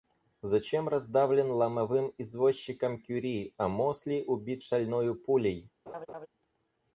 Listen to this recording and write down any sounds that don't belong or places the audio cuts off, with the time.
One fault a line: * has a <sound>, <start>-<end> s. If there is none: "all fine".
* has a laugh, 5.9-6.3 s